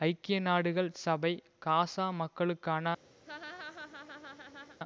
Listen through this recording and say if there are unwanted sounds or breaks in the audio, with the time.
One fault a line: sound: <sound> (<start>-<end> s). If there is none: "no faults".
sound: laugh (3.2-4.8 s)